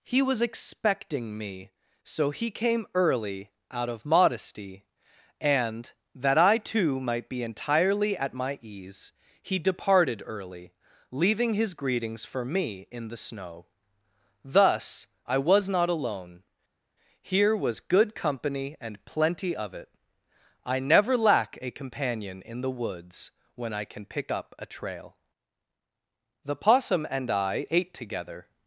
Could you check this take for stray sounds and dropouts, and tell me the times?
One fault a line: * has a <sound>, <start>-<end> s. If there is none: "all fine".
all fine